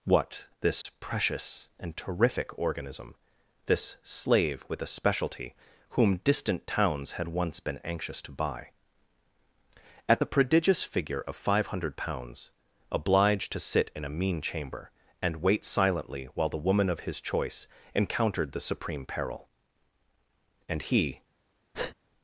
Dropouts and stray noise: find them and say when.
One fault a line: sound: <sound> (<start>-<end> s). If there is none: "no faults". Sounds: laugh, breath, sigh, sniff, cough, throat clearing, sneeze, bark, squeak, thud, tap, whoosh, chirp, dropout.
sound: dropout (0.8-0.8 s)
sound: breath (21.7-22.0 s)